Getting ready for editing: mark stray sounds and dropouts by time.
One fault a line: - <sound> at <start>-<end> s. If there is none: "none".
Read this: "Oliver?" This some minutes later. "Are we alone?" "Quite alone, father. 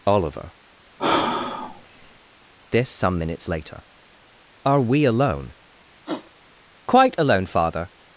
- sigh at 1.0-2.2 s
- sniff at 6.0-6.3 s